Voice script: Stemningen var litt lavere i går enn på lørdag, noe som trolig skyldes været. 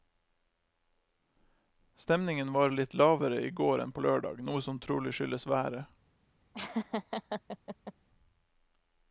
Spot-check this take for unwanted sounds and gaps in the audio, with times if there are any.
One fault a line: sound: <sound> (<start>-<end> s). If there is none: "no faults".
sound: laugh (6.5-7.9 s)